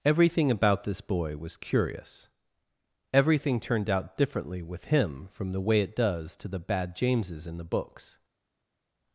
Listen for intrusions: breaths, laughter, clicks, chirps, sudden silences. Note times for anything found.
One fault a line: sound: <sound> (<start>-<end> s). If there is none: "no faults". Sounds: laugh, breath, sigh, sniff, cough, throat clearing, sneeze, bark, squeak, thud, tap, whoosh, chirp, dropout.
no faults